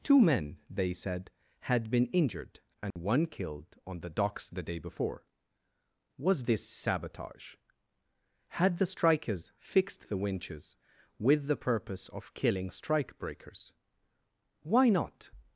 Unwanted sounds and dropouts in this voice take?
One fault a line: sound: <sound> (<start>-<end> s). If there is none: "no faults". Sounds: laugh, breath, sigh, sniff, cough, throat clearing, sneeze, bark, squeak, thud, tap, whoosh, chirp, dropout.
sound: dropout (2.9-3.0 s)